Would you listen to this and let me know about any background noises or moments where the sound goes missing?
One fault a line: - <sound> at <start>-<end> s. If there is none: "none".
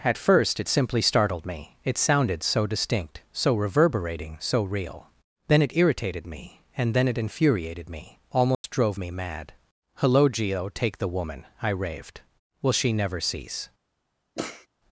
- dropout at 8.5-8.6 s
- sniff at 14.3-14.7 s